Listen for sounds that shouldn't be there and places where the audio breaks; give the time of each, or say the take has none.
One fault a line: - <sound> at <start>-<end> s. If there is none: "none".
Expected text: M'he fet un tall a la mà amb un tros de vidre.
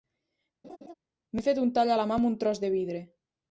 - laugh at 0.6-0.9 s